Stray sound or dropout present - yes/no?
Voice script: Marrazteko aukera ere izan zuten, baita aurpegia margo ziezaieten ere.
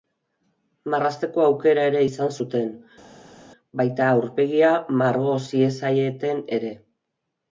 no